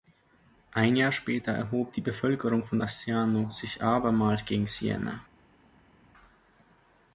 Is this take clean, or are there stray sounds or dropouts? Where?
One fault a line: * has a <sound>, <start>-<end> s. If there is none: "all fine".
all fine